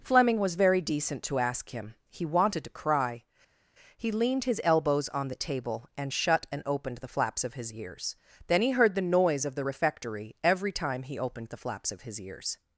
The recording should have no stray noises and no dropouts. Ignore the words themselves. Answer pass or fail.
pass